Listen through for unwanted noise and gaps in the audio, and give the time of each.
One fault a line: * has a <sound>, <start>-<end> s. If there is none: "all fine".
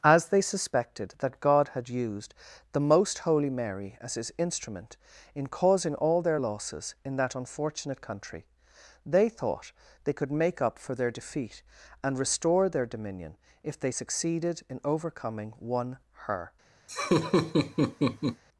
* has a laugh, 16.9-18.4 s